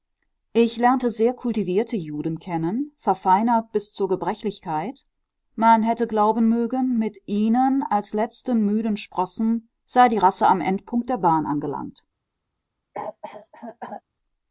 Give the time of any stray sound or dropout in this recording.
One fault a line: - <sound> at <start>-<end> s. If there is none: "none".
- cough at 12.9-14.0 s